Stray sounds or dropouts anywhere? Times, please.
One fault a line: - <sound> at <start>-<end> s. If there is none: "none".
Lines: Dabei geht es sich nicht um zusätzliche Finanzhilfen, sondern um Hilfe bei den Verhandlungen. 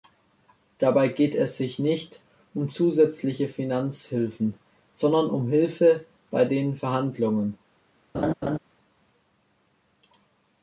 - laugh at 8.1-8.6 s